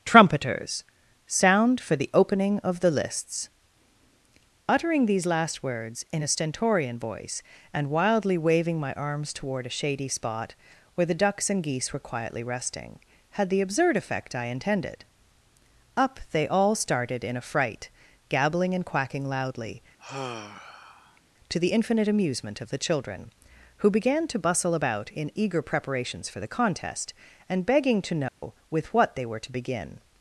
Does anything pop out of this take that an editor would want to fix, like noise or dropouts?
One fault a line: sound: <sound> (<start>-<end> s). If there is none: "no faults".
sound: sigh (20.0-21.2 s)
sound: dropout (28.3-28.4 s)